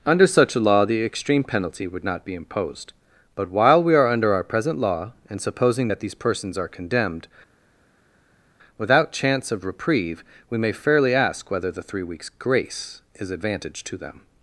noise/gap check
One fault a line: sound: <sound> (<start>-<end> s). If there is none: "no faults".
no faults